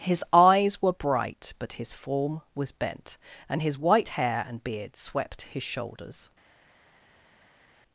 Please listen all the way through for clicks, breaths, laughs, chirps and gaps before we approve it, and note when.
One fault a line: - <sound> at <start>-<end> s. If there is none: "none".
none